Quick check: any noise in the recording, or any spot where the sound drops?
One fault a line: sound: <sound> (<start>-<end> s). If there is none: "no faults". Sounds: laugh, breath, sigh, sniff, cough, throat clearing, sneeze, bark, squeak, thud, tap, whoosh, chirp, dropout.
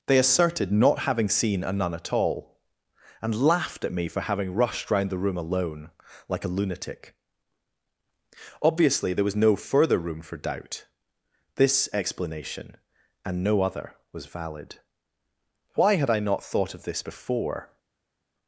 no faults